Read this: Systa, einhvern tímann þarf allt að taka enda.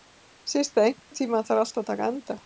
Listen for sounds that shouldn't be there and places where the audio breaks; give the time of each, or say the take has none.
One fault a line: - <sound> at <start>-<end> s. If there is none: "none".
- dropout at 1.0-1.1 s